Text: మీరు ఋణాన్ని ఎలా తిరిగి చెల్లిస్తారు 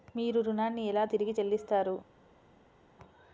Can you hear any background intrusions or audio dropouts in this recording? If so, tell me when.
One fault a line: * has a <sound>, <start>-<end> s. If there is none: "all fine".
all fine